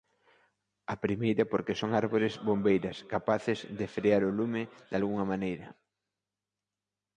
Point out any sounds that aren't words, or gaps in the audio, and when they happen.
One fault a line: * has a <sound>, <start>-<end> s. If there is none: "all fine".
all fine